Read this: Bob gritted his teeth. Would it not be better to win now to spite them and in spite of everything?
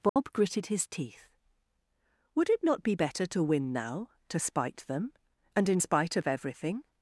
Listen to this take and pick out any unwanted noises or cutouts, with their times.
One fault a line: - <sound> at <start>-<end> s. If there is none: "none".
- dropout at 0.1-0.2 s